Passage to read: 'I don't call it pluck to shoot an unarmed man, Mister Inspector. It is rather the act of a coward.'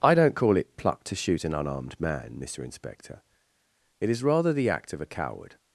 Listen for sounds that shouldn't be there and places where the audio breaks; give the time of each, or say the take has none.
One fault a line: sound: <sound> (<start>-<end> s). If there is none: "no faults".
no faults